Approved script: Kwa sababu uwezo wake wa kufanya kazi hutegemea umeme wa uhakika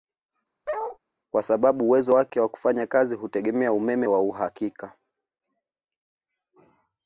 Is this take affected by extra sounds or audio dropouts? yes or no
yes